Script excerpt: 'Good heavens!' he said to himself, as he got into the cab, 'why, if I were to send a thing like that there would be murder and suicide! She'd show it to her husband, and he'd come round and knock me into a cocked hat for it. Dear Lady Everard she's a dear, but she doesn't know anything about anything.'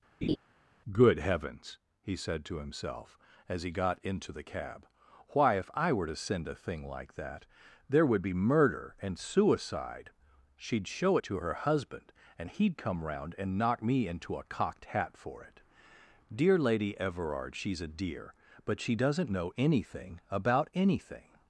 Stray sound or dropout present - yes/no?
yes